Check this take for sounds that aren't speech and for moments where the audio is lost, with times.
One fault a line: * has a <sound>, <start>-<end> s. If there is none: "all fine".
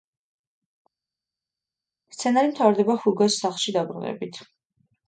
all fine